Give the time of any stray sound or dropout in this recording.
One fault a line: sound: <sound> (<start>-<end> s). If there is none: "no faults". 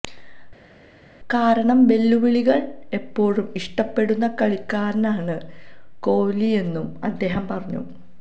no faults